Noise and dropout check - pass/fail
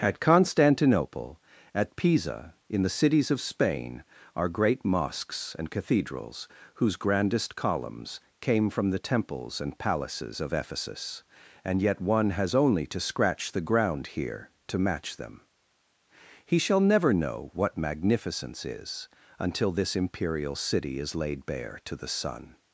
pass